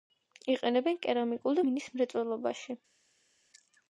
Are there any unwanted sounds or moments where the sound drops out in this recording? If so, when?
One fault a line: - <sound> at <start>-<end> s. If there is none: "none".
none